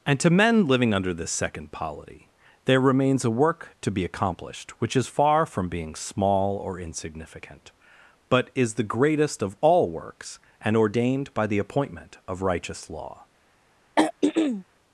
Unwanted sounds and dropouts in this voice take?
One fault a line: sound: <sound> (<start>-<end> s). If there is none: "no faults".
sound: throat clearing (14.0-14.6 s)